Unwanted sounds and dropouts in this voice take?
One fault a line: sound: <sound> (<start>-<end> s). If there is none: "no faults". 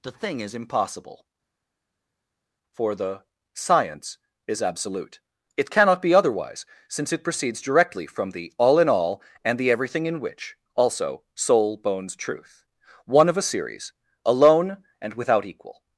no faults